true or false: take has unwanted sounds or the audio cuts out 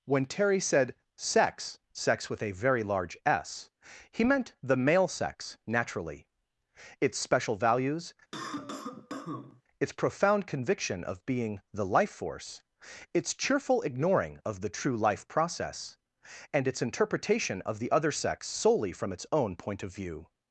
true